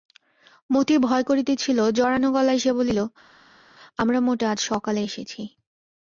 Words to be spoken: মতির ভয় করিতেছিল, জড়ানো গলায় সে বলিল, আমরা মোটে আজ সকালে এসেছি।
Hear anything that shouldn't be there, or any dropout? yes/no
no